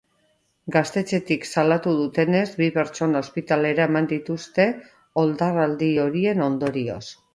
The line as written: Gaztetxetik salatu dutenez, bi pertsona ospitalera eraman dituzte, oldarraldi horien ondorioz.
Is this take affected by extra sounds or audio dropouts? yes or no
no